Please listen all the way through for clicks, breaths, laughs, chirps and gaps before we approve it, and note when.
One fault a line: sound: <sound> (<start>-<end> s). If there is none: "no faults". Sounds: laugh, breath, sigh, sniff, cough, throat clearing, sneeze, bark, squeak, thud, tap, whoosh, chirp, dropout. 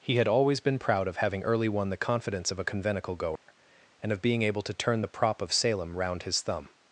sound: dropout (3.4-3.5 s)